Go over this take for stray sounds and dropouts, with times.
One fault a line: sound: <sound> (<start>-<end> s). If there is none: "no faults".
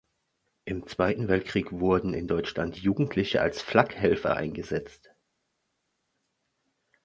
no faults